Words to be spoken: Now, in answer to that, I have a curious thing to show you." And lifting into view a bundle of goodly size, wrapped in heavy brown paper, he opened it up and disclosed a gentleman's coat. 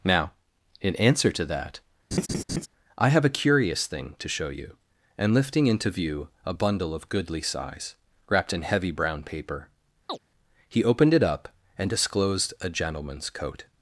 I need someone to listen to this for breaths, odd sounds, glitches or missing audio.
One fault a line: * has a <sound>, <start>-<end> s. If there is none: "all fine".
* has a laugh, 2.1-2.7 s
* has a chirp, 10.1-10.2 s